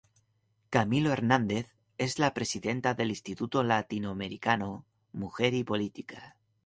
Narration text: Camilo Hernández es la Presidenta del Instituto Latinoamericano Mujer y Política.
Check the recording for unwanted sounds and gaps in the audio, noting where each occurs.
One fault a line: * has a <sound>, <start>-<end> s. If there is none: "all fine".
all fine